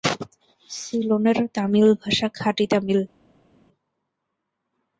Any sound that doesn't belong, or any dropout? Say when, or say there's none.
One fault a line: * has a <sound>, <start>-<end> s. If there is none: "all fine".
all fine